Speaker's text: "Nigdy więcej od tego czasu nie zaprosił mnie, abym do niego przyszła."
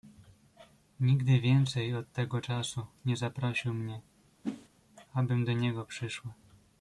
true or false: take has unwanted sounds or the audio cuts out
true